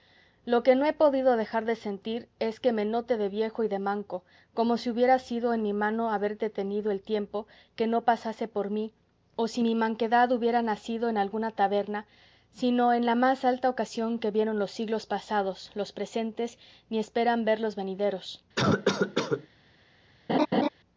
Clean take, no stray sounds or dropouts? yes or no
no